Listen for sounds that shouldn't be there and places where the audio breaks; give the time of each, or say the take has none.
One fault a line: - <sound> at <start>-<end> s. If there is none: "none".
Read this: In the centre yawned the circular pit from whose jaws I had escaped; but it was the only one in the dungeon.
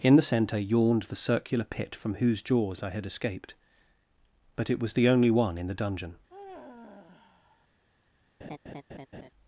- sigh at 6.3-7.7 s
- laugh at 8.4-9.3 s